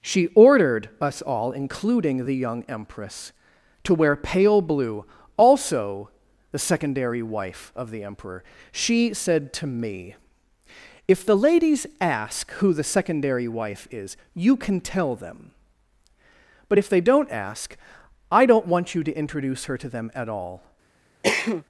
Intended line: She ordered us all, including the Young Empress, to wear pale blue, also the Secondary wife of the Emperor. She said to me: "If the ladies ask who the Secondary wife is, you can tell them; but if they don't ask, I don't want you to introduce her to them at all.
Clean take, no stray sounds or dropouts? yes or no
no